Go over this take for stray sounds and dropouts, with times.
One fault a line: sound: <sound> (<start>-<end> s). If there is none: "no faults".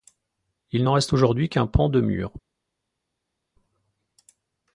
no faults